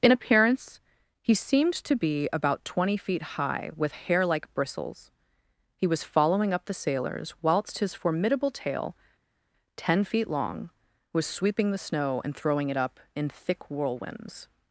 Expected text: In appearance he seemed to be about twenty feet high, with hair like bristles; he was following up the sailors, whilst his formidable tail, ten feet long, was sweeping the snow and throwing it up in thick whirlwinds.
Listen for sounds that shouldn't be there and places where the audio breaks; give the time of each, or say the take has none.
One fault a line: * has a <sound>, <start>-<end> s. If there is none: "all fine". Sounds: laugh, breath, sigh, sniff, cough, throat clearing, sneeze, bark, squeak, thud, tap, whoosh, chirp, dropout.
all fine